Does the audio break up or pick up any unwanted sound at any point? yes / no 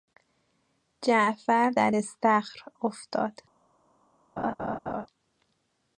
yes